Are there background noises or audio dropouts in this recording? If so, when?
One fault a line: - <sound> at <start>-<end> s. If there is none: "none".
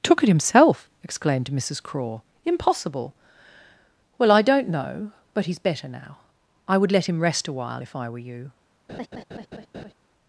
- laugh at 8.9-9.9 s